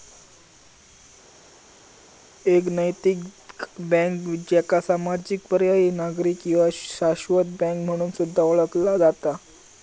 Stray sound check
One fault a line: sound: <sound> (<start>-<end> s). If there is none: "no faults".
no faults